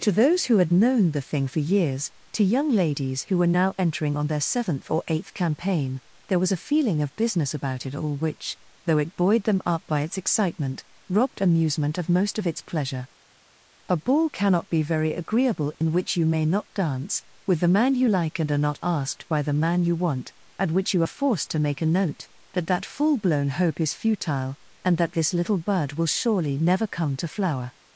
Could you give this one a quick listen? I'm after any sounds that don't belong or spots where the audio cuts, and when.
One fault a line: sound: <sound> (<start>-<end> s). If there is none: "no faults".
sound: dropout (15.7-15.8 s)